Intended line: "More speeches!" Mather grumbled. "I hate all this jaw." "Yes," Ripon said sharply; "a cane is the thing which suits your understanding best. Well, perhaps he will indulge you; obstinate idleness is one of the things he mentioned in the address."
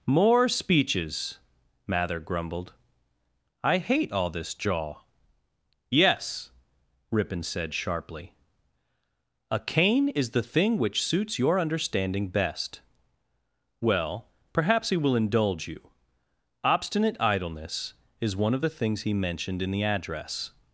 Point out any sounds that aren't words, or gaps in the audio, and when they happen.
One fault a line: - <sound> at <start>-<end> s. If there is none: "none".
none